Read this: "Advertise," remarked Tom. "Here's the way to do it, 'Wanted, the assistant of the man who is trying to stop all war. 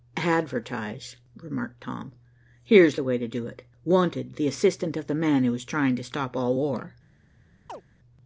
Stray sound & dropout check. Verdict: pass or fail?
fail